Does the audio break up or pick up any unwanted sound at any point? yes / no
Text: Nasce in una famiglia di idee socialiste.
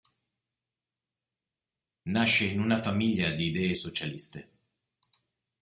no